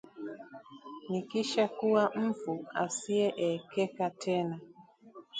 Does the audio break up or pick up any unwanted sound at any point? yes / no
no